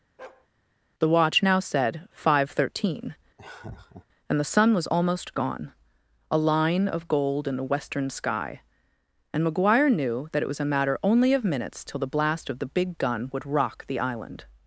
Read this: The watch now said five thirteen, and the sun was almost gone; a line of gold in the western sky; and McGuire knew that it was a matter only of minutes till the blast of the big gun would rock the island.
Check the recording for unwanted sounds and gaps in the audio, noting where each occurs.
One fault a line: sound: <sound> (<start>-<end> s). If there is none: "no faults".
sound: bark (0.2-0.5 s)
sound: laugh (3.4-4.1 s)